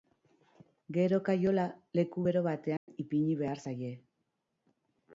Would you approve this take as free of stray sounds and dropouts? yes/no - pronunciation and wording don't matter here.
no